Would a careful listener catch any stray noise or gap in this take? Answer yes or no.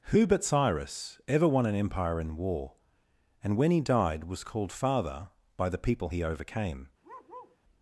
yes